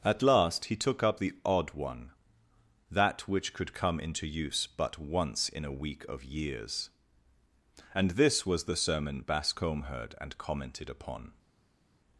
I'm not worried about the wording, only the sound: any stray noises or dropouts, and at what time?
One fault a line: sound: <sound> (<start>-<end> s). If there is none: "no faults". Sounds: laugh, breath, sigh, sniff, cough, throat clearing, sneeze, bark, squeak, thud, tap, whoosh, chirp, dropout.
no faults